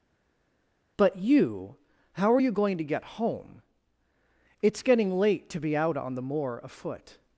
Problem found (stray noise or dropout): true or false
false